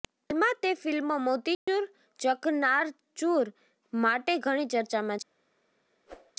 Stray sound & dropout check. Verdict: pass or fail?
fail